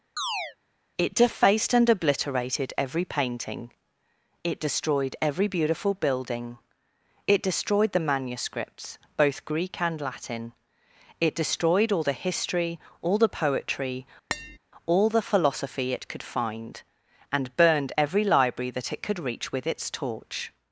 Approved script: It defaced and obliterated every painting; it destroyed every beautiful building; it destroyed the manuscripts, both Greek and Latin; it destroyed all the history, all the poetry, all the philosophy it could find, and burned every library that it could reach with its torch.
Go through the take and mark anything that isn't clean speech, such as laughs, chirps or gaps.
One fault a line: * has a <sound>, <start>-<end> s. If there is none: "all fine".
* has a chirp, 0.2-0.6 s
* has a tap, 14.3-14.6 s